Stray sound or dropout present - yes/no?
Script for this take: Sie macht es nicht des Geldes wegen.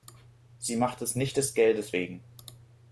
no